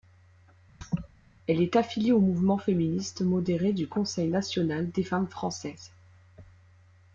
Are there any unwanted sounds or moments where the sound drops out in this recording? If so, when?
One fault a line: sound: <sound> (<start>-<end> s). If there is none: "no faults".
sound: laugh (0.8-1.1 s)